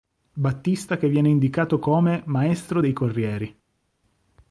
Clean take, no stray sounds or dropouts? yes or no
yes